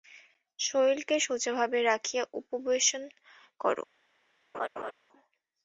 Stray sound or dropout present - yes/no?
yes